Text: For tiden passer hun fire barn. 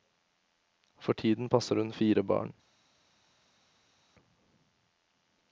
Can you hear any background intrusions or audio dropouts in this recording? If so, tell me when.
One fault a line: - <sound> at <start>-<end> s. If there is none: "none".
none